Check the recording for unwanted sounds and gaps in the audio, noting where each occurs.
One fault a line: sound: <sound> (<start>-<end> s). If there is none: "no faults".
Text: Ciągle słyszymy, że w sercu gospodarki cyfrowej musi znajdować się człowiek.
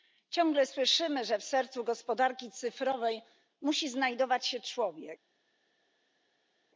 no faults